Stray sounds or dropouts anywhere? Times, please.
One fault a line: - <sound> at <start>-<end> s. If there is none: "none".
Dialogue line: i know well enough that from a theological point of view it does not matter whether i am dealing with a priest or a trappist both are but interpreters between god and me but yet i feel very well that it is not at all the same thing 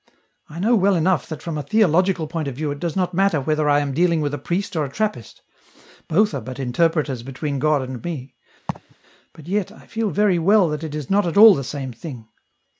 - laugh at 8.7-9.0 s